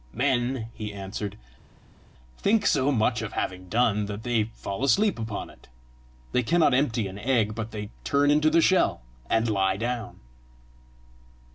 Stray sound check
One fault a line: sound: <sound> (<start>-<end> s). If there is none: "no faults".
no faults